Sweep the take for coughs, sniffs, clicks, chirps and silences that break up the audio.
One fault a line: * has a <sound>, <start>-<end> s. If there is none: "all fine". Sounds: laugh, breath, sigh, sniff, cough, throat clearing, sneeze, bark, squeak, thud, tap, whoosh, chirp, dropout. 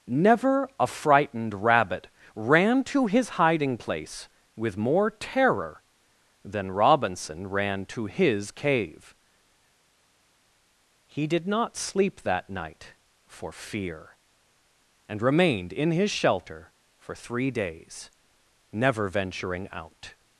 all fine